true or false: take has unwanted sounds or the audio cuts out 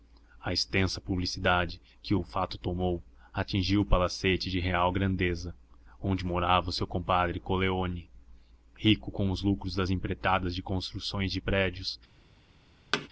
true